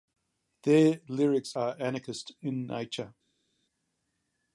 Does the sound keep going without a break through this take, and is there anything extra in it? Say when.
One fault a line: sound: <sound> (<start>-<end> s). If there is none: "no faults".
no faults